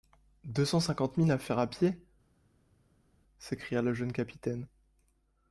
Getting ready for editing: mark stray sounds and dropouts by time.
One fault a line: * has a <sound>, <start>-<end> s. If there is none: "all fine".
all fine